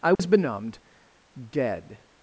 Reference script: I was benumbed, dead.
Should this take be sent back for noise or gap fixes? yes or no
yes